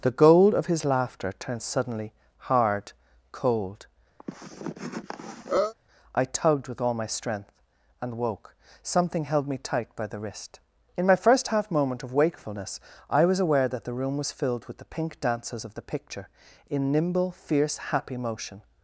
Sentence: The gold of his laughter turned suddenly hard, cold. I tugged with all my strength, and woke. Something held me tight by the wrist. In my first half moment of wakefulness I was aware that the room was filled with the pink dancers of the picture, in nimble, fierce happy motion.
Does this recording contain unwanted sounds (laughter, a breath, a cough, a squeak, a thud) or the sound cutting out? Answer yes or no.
yes